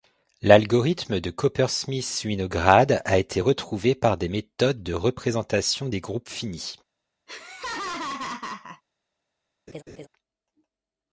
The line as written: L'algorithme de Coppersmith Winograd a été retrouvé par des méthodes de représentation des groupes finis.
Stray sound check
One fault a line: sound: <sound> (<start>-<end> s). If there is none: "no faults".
sound: laugh (7.3-8.8 s)
sound: laugh (9.7-10.1 s)